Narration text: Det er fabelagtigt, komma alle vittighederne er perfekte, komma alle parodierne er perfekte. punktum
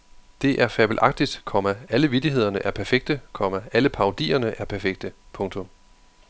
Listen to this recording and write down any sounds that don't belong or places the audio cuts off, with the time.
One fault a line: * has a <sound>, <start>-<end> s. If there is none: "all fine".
all fine